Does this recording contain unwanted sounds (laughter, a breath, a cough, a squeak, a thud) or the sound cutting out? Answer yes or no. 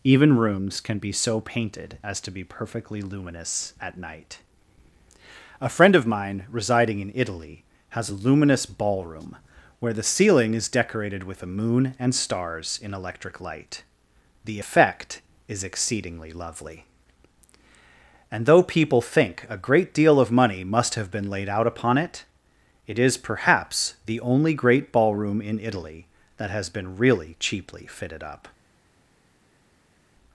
no